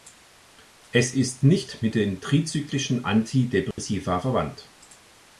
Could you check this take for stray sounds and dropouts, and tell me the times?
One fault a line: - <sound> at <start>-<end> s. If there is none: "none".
- dropout at 3.7-3.8 s